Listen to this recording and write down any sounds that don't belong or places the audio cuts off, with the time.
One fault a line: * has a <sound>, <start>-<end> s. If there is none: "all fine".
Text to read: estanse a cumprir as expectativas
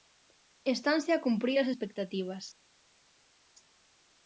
all fine